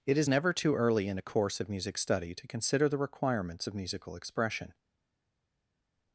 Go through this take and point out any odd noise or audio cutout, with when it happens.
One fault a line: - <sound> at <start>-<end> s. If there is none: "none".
none